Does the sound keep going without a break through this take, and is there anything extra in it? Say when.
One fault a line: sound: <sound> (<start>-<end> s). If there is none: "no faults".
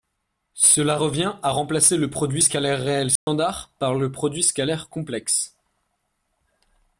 sound: dropout (3.2-3.3 s)